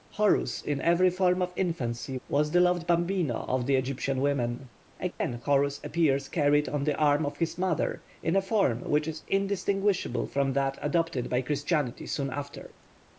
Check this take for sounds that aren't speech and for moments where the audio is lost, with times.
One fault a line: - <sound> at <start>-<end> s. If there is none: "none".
- dropout at 5.1-5.2 s